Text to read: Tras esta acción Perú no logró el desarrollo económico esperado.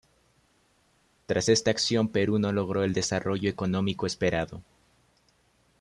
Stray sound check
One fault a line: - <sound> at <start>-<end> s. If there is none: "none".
none